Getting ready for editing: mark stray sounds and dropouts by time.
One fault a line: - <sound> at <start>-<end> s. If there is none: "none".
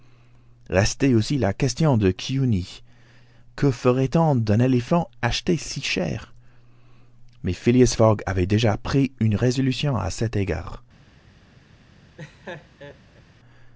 - laugh at 12.2-13.2 s